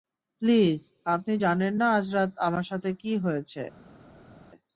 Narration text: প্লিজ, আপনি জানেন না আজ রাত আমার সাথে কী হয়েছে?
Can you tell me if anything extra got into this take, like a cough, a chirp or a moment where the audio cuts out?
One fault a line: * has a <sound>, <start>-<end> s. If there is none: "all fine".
all fine